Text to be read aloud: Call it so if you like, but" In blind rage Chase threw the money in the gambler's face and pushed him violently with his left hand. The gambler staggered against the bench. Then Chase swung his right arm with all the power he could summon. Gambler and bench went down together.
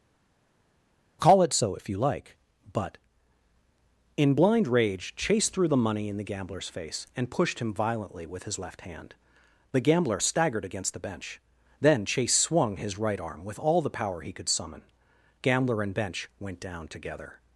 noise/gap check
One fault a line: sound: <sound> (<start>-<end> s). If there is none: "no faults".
no faults